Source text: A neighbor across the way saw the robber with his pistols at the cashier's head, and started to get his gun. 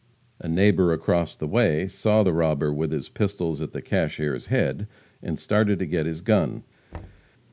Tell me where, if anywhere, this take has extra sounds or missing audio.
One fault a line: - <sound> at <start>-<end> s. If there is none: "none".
- thud at 6.9-7.3 s